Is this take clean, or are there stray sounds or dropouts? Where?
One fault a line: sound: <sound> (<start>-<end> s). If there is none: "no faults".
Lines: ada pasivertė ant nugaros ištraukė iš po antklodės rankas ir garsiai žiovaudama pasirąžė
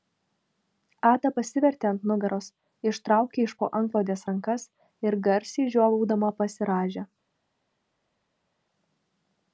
no faults